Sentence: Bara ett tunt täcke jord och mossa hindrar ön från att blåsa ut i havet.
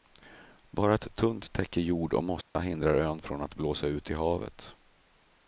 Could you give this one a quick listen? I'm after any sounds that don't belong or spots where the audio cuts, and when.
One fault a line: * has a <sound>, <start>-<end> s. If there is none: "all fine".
* has a dropout, 2.4-2.5 s